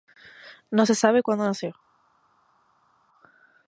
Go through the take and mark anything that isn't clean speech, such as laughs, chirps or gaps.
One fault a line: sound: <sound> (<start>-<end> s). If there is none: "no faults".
no faults